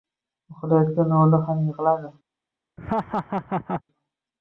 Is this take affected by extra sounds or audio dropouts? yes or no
yes